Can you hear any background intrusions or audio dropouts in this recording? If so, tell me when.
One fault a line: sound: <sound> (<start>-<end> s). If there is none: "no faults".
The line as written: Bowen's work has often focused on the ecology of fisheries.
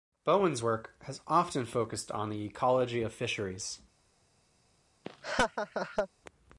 sound: laugh (5.0-6.1 s)